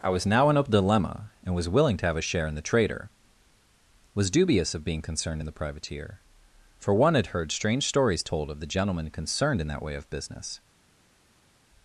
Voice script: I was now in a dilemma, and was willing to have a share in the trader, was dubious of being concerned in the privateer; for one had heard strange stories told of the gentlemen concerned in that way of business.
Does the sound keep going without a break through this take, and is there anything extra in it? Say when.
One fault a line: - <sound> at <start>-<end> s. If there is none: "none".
none